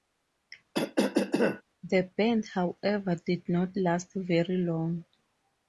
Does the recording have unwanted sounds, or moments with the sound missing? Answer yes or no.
yes